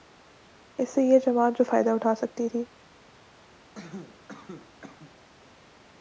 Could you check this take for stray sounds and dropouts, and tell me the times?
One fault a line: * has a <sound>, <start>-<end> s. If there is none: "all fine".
* has a cough, 3.7-5.2 s